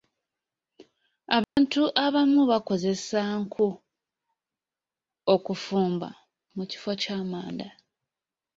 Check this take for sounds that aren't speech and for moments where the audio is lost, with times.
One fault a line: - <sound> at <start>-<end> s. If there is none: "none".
- dropout at 1.4-1.6 s